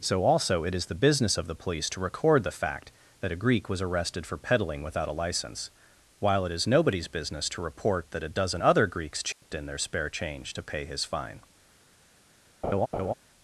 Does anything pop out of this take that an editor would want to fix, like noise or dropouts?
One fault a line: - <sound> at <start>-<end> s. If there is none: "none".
- dropout at 9.3-9.4 s
- laugh at 12.6-13.1 s